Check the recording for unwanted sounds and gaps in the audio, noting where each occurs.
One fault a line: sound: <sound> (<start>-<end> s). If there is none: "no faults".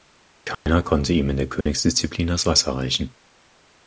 sound: dropout (0.5-0.7 s)
sound: dropout (1.6-1.7 s)